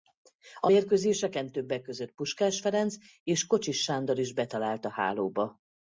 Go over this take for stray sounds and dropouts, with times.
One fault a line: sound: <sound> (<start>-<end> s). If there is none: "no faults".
no faults